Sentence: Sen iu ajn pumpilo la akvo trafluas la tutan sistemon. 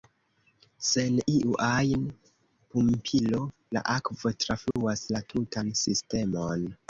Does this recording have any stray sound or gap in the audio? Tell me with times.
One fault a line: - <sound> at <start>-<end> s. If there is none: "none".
- dropout at 4.7-4.8 s